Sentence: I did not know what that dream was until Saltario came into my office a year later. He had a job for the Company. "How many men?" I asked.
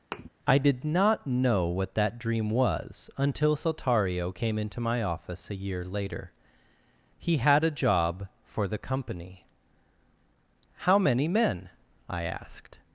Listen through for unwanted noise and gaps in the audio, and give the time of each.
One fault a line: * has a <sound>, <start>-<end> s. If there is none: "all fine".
* has a thud, 0.1-0.3 s